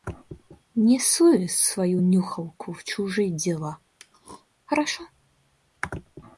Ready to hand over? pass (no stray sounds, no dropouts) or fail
fail